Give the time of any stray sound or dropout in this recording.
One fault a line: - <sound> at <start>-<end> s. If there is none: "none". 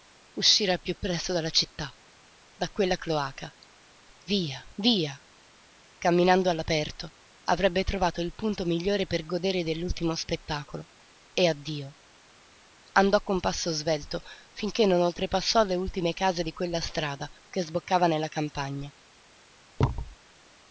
- thud at 19.8-20.2 s